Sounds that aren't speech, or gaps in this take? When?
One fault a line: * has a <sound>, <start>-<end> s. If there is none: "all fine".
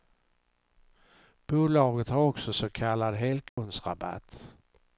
* has a dropout, 3.5-3.6 s